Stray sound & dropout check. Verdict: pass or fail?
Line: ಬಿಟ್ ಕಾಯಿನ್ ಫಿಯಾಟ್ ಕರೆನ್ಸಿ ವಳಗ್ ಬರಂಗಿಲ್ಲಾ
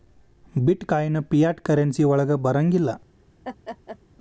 fail